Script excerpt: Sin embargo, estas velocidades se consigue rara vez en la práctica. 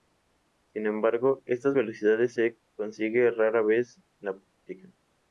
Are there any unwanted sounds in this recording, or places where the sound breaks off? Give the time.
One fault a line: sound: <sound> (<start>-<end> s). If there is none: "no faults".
no faults